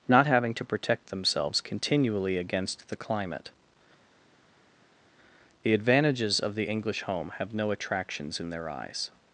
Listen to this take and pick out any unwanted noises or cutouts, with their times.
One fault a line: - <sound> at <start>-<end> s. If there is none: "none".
none